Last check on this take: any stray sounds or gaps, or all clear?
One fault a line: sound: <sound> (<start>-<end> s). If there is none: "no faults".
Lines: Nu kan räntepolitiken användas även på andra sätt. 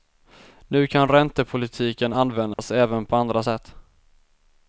sound: dropout (2.5-2.6 s)